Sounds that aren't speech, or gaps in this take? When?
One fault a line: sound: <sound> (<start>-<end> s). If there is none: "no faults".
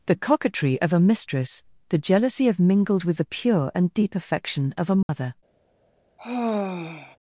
sound: dropout (5.0-5.1 s)
sound: sigh (6.2-7.2 s)